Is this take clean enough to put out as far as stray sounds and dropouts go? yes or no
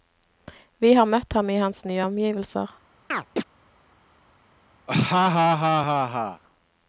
no